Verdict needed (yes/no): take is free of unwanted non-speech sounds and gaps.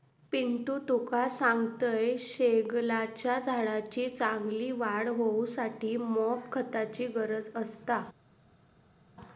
yes